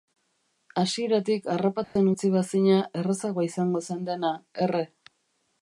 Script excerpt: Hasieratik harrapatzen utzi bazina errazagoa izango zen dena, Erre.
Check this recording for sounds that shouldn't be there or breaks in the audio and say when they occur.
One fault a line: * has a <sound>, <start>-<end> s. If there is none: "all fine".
* has a dropout, 1.8-2.0 s